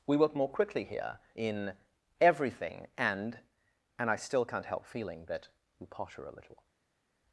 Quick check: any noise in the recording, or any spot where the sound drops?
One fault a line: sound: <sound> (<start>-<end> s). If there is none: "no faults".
no faults